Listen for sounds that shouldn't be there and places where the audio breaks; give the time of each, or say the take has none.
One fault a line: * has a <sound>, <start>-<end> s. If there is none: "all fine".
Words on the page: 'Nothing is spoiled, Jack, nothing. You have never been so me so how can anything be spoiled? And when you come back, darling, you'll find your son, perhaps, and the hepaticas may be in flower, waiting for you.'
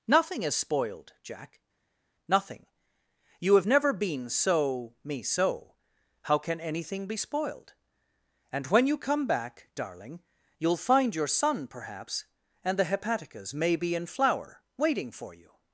all fine